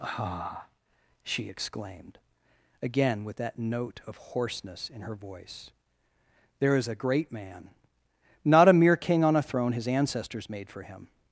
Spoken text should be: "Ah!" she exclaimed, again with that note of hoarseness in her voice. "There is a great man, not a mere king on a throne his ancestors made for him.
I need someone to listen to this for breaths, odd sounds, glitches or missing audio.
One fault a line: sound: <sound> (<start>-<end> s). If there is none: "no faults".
no faults